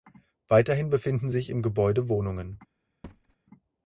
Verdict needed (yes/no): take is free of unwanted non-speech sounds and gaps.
no